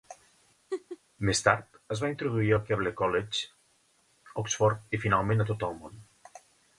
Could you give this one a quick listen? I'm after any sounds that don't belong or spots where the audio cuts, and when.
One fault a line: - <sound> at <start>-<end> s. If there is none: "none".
- laugh at 0.7-1.0 s